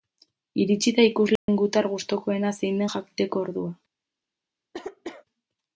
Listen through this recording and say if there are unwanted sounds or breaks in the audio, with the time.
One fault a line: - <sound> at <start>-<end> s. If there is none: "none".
- dropout at 1.4-1.5 s
- cough at 4.7-5.2 s